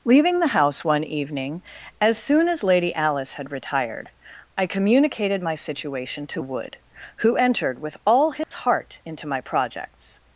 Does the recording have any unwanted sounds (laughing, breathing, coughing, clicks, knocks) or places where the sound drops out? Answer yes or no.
yes